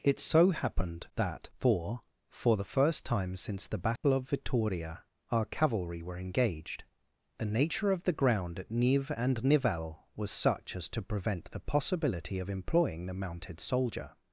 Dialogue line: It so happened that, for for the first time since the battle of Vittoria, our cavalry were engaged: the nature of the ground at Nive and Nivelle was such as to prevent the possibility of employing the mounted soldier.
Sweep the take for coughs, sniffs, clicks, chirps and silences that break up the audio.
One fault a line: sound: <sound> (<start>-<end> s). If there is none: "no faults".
sound: dropout (4.0-4.0 s)